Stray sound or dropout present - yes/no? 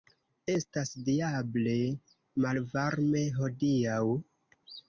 no